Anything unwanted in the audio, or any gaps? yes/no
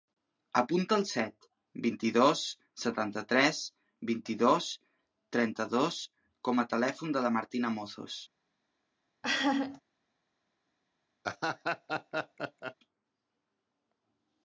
yes